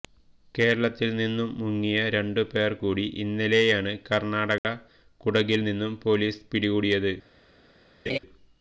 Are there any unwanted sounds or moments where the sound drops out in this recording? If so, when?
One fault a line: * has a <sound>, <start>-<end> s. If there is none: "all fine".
* has a dropout, 4.6-4.6 s
* has a laugh, 8.1-8.2 s